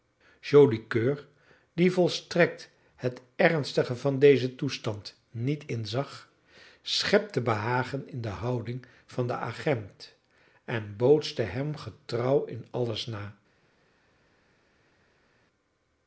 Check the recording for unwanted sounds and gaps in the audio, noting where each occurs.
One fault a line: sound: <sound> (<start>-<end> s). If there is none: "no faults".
no faults